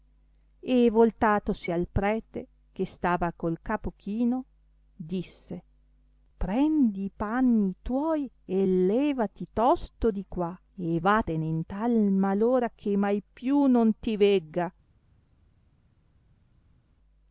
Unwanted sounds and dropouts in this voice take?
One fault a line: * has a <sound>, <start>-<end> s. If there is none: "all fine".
all fine